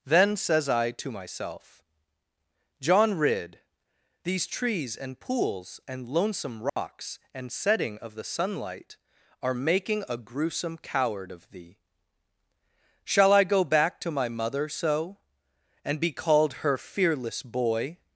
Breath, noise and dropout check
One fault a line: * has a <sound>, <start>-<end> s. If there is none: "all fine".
* has a dropout, 6.7-6.8 s